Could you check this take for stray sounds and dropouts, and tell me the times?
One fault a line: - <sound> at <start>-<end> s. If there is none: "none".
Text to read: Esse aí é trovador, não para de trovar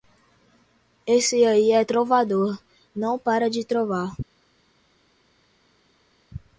none